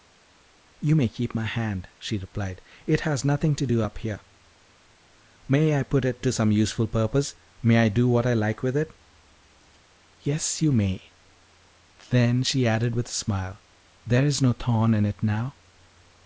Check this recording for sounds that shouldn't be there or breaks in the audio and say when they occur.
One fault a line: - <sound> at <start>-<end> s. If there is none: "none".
none